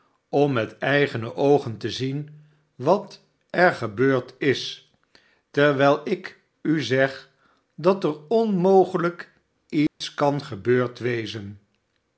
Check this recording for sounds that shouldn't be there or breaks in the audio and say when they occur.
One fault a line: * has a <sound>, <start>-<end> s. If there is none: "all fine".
* has a dropout, 9.9-10.0 s